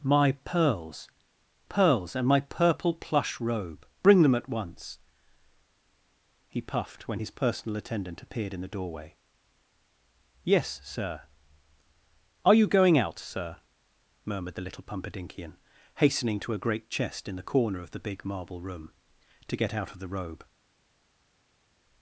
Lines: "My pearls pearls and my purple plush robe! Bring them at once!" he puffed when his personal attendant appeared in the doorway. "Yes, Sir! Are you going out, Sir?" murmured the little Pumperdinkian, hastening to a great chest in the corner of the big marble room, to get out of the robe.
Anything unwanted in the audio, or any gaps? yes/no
no